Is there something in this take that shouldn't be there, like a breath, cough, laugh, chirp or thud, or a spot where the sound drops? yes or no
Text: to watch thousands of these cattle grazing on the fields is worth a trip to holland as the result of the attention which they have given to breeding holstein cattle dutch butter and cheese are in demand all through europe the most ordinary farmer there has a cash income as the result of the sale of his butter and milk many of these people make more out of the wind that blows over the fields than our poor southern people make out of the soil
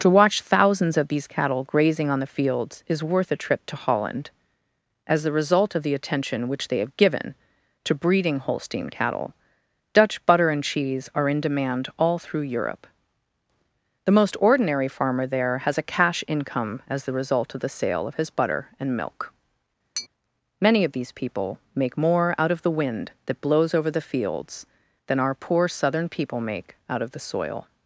yes